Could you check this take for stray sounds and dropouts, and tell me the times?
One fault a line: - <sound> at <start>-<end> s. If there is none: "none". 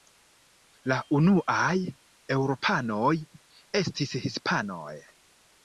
none